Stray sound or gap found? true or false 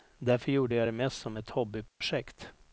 true